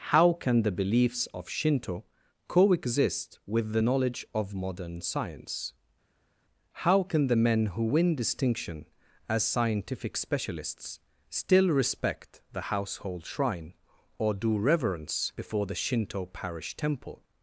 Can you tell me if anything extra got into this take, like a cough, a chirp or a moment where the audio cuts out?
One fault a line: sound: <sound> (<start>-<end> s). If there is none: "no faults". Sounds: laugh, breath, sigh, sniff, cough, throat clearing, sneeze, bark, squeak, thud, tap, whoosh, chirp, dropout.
no faults